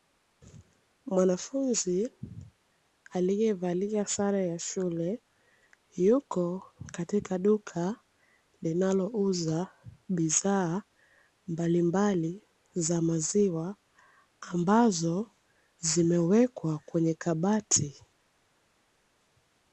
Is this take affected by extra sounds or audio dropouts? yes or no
no